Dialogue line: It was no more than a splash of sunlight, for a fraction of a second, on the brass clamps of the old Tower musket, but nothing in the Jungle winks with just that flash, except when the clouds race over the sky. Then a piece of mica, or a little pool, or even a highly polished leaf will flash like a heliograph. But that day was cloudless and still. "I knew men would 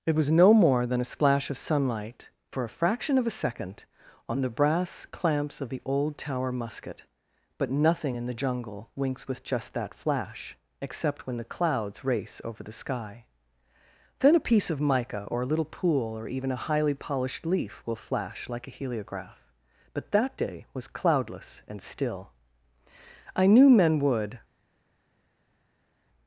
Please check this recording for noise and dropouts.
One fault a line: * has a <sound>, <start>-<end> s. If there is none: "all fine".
all fine